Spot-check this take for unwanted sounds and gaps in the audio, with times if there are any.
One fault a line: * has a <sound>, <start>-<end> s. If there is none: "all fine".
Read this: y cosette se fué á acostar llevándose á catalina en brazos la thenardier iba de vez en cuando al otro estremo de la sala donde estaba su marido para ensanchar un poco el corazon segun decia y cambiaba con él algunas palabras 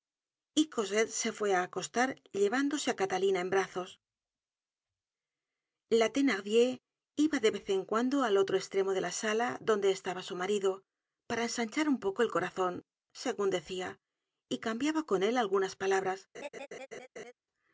* has a laugh, 16.3-17.3 s